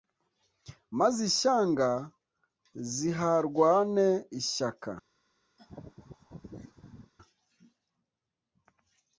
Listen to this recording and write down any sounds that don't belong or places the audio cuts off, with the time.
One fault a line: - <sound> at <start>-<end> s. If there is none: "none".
- laugh at 5.6-7.1 s